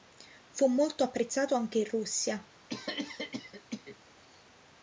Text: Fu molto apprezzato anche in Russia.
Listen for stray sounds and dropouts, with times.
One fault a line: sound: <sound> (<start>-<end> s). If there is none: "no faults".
sound: cough (2.7-4.0 s)